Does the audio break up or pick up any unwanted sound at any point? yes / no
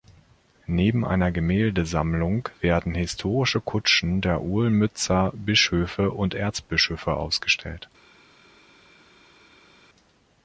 no